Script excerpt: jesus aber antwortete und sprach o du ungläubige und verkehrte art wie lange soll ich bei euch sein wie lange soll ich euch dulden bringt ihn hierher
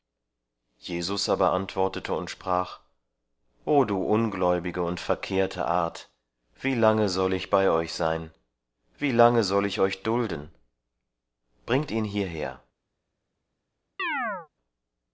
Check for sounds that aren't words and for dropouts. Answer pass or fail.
fail